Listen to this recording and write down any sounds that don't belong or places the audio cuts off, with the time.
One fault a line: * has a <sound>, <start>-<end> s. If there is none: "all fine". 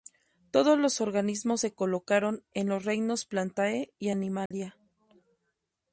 * has a dropout, 4.5-4.5 s